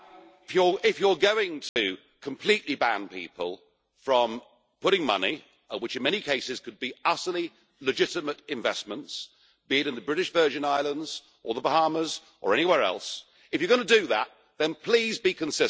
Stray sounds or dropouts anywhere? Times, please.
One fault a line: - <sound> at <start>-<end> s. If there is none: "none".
- dropout at 1.7-1.8 s